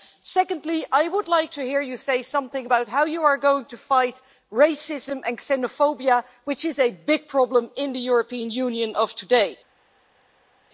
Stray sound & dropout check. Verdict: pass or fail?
pass